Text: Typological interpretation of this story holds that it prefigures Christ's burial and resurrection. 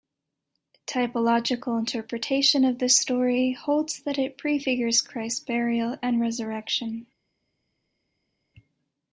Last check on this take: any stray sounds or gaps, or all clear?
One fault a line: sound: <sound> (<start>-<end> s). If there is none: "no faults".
no faults